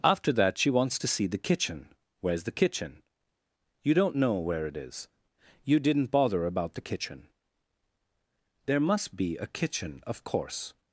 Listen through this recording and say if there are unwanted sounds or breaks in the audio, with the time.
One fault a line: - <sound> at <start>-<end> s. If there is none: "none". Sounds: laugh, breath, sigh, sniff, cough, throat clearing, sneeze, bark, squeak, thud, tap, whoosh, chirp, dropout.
none